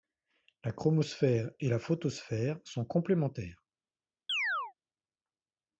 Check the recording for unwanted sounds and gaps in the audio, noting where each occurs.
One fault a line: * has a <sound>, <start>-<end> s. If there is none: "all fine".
* has a chirp, 4.3-4.7 s